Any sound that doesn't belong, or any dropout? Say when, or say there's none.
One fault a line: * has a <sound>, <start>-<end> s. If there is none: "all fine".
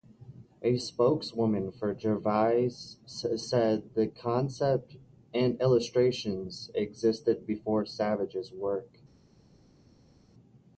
all fine